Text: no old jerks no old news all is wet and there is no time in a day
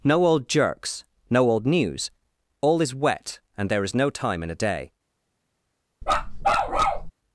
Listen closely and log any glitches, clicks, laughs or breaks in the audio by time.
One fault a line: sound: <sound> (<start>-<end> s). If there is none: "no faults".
sound: bark (6.0-7.1 s)